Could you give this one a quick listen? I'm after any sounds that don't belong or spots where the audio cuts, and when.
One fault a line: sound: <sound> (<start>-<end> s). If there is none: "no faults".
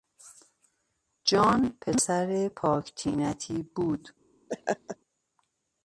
sound: laugh (4.5-5.0 s)